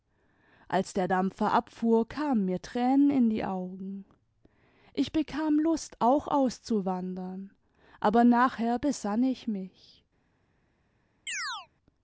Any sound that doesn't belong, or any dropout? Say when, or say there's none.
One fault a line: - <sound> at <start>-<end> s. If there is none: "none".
- chirp at 11.3-11.7 s